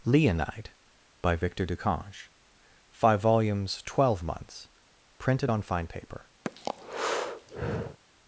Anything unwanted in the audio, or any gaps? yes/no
yes